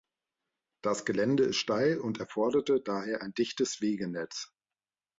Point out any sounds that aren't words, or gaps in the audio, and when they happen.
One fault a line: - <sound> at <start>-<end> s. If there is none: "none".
none